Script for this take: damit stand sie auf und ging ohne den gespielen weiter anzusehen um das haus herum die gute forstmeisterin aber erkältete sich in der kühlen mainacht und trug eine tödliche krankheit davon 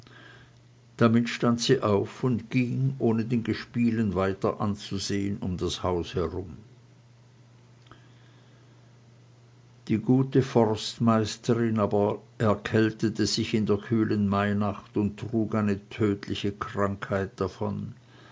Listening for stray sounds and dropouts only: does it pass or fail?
pass